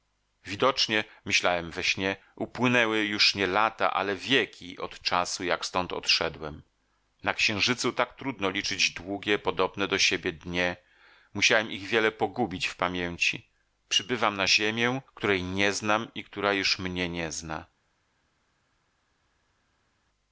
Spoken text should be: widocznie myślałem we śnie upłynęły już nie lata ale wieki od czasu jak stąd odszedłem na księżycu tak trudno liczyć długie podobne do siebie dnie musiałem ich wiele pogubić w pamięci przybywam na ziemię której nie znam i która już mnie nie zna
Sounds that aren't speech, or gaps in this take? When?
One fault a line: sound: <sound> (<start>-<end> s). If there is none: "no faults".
no faults